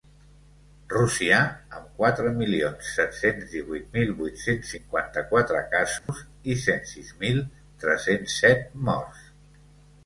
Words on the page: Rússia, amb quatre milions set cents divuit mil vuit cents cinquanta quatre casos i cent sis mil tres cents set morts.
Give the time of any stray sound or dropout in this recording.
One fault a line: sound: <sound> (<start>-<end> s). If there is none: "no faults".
sound: dropout (6.0-6.1 s)